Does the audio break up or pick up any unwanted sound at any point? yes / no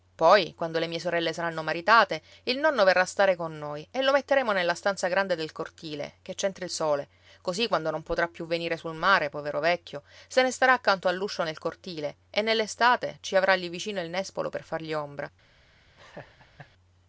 yes